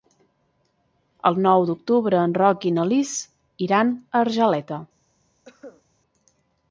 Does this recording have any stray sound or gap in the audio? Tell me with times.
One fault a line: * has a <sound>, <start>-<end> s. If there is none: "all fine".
* has a cough, 5.5-5.8 s